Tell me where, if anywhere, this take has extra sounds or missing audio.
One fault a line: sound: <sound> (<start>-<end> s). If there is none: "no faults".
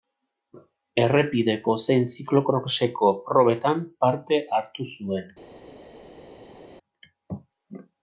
no faults